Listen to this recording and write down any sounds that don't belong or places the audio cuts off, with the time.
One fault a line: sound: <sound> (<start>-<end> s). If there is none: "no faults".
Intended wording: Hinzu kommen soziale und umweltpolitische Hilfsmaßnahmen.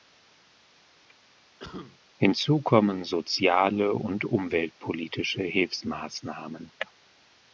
sound: cough (1.6-2.0 s)